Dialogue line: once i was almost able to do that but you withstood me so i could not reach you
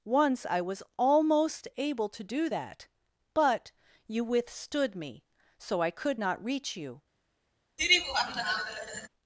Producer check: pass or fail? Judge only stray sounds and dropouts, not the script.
fail